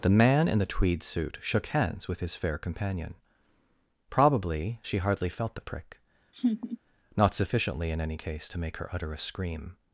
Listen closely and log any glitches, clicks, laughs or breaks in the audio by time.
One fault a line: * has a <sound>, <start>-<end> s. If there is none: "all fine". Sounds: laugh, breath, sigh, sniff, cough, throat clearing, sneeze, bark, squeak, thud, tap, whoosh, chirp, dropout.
* has a laugh, 6.3-6.8 s